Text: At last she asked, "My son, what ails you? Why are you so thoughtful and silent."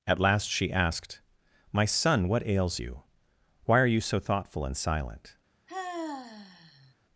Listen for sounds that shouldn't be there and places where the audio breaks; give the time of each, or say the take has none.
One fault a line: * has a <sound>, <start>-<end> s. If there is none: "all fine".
* has a sigh, 5.7-6.9 s